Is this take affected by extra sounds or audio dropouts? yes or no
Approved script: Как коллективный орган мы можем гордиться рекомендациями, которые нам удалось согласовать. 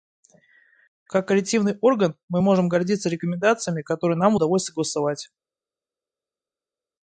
no